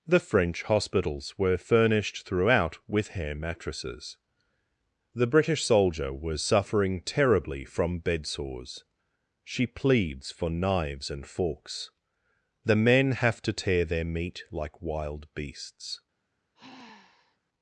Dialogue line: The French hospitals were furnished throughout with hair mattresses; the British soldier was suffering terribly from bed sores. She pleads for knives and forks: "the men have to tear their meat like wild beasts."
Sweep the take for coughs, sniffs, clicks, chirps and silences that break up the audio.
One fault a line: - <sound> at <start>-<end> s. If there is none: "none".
- sigh at 16.6-17.4 s